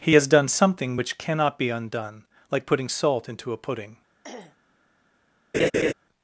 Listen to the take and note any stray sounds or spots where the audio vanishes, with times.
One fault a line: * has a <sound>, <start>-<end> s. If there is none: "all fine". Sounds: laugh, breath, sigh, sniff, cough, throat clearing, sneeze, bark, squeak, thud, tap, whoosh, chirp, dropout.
* has a throat clearing, 4.2-4.6 s
* has a laugh, 5.5-5.9 s